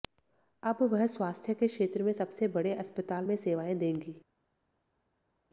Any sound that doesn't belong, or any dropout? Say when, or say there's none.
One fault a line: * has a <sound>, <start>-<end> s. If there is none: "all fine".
all fine